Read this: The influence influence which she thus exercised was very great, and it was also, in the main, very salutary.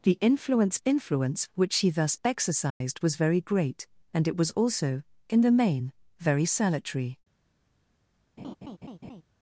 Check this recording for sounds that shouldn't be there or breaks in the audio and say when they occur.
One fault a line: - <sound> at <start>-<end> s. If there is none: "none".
- dropout at 2.7-2.8 s
- laugh at 8.4-9.2 s